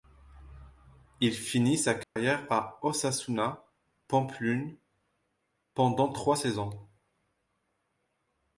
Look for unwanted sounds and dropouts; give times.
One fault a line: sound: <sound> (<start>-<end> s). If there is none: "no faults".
sound: dropout (2.0-2.2 s)